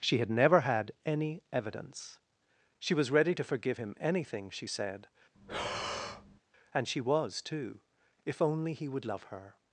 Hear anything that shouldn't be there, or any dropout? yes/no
yes